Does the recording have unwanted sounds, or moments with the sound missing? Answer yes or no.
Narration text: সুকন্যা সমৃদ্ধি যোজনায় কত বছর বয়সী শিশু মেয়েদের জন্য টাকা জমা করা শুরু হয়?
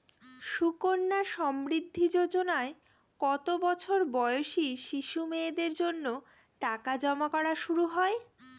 no